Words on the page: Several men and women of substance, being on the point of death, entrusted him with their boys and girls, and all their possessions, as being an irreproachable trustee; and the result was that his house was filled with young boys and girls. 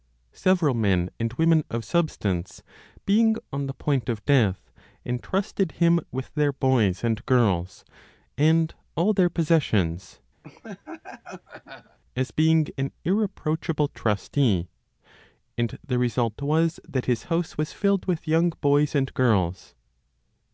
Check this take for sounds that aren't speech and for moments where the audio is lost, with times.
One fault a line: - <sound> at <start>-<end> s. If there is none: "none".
- laugh at 10.4-12.0 s